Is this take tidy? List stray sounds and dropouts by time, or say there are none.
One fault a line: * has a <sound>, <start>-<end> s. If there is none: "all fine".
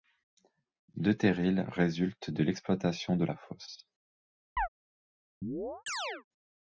* has a chirp, 4.6-4.7 s
* has a chirp, 5.4-6.2 s